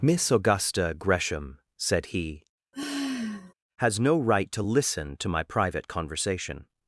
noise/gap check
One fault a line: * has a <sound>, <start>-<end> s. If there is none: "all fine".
* has a sigh, 2.7-3.5 s